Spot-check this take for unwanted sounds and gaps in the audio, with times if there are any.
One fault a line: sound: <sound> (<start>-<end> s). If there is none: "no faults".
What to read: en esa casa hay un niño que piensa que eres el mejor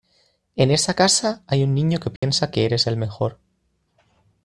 sound: dropout (2.2-2.2 s)